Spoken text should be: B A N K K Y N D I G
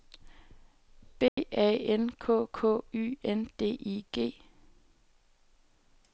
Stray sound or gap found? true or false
true